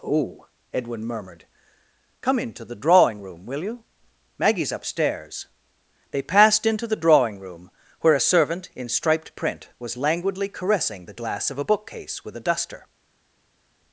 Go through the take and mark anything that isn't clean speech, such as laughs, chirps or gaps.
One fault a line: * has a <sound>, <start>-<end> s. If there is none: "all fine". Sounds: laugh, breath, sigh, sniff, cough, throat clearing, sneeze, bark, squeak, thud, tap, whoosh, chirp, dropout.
all fine